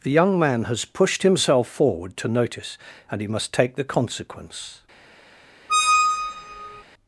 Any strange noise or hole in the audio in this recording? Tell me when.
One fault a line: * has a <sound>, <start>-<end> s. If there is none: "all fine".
* has a squeak, 5.7-6.8 s